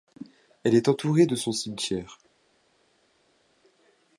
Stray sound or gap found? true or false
false